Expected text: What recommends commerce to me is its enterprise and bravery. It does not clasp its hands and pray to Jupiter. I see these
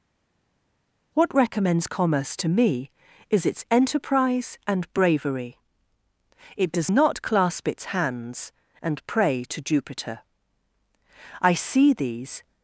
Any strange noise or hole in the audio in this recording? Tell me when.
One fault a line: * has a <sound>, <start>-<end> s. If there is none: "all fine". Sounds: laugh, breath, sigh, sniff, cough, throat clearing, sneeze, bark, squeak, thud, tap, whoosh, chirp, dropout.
all fine